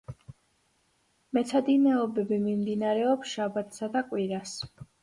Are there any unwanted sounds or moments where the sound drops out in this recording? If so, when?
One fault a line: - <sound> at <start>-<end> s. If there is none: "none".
none